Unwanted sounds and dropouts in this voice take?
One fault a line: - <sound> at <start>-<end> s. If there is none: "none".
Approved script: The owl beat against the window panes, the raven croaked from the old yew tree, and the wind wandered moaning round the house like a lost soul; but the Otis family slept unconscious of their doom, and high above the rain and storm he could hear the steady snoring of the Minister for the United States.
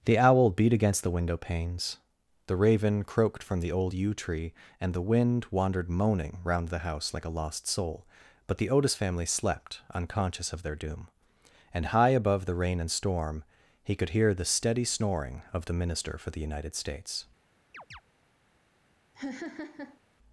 - chirp at 17.7-18.0 s
- laugh at 19.1-20.0 s